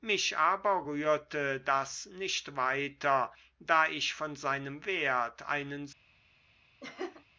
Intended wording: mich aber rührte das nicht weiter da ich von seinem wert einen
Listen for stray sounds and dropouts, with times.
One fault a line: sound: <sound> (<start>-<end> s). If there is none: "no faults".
sound: laugh (6.8-7.2 s)